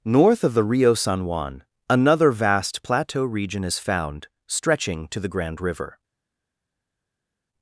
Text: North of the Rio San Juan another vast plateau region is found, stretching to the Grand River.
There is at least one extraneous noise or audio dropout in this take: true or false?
false